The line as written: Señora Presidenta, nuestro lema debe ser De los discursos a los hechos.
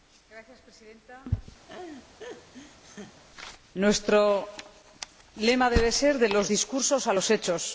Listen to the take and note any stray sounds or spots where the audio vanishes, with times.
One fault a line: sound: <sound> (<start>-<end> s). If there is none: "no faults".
sound: laugh (1.7-3.2 s)